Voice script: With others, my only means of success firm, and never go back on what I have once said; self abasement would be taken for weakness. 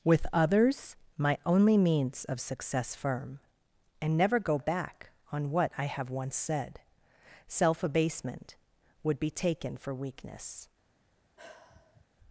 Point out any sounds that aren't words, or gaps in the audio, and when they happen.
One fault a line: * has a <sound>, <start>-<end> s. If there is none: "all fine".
* has a sigh, 11.4-12.1 s